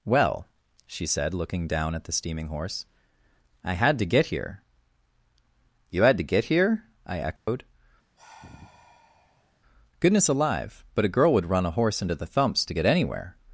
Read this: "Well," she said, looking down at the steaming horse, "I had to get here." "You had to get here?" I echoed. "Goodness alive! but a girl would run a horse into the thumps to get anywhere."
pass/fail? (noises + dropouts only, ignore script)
fail